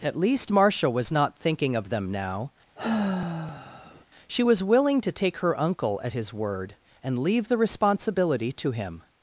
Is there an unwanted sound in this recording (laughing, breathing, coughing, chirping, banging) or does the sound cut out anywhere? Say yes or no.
yes